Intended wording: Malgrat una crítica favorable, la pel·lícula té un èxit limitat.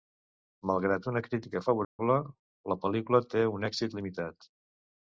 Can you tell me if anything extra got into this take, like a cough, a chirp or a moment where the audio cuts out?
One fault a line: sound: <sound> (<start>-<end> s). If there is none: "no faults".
sound: dropout (1.8-2.0 s)